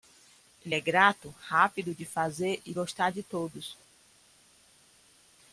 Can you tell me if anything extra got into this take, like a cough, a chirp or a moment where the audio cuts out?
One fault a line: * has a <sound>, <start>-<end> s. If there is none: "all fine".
all fine